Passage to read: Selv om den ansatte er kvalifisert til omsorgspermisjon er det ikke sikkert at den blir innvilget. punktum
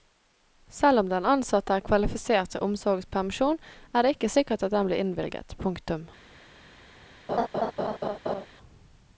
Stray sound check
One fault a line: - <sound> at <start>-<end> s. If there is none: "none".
- laugh at 7.3-8.5 s